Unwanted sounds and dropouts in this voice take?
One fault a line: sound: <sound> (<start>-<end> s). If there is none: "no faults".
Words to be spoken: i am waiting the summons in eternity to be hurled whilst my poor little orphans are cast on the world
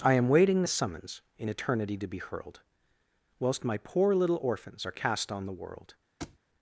sound: thud (6.2-6.4 s)